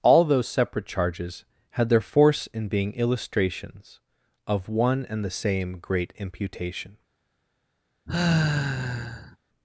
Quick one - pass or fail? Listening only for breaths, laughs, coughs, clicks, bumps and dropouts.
fail